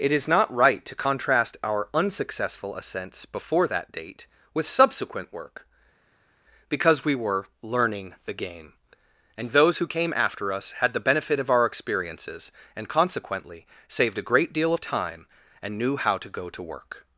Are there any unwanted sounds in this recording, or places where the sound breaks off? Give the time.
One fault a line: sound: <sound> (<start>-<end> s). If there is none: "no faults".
no faults